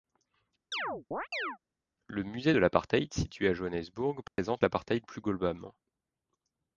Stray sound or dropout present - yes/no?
yes